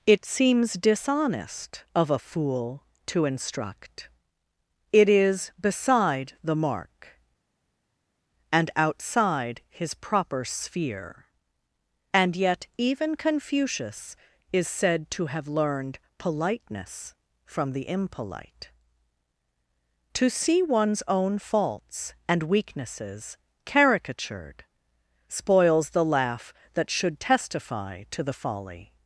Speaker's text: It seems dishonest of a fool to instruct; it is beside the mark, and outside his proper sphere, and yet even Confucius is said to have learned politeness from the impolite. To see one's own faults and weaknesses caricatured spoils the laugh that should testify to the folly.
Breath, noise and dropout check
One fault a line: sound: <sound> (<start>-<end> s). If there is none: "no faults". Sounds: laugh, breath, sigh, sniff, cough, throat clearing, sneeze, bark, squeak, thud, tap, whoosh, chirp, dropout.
no faults